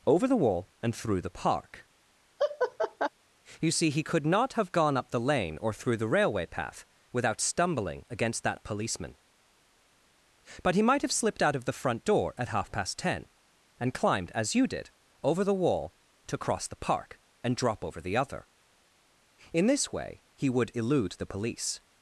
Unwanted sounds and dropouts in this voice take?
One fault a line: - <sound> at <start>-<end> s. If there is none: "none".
- laugh at 2.4-3.1 s